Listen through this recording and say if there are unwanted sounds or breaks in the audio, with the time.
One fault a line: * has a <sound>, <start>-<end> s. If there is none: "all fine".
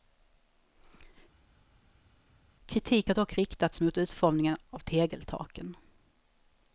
all fine